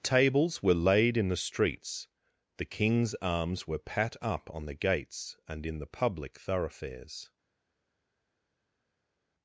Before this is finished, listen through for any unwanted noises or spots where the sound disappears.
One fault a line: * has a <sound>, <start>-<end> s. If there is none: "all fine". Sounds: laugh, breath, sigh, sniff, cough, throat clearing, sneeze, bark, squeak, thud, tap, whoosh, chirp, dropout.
all fine